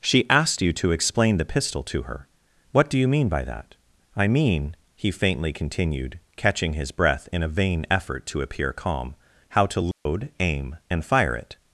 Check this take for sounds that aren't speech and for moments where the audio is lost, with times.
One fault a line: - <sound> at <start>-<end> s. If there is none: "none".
- dropout at 9.9-10.1 s